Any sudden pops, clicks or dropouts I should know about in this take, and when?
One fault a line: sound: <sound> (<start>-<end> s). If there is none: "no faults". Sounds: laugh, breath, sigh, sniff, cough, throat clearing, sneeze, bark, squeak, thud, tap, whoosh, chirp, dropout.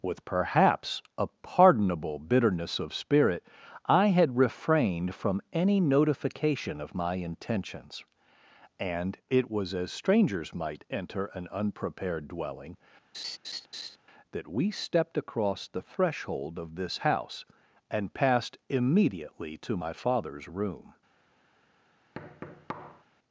sound: laugh (13.1-14.0 s)
sound: thud (22.1-23.0 s)